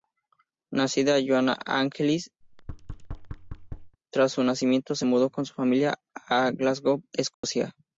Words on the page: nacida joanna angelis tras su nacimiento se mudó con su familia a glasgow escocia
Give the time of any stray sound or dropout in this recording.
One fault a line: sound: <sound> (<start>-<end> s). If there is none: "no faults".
sound: thud (2.4-4.0 s)
sound: dropout (7.3-7.4 s)